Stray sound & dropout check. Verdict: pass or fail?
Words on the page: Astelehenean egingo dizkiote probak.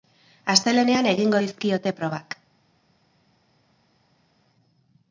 pass